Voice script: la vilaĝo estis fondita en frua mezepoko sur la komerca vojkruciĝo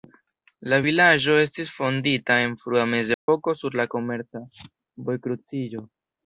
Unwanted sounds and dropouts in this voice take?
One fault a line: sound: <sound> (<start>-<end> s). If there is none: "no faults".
sound: dropout (3.1-3.3 s)